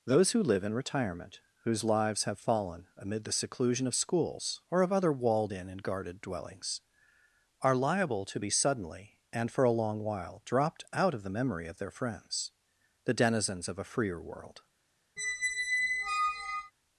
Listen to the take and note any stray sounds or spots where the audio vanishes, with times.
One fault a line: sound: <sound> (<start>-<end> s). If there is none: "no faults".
sound: squeak (15.2-16.7 s)